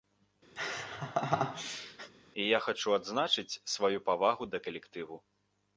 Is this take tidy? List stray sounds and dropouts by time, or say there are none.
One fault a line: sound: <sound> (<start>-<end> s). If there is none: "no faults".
sound: laugh (0.6-2.1 s)